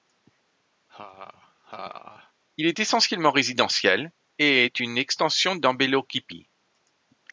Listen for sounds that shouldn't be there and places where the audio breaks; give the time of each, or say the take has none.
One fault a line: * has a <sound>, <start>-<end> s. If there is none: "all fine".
* has a laugh, 0.9-2.3 s